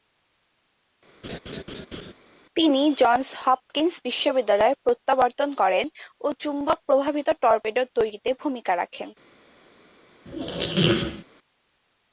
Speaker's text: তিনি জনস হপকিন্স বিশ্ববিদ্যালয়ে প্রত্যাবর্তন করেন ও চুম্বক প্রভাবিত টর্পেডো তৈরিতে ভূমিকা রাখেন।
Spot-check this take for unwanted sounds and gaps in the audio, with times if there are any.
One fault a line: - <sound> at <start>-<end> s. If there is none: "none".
- laugh at 1.2-2.1 s
- squeak at 10.2-11.2 s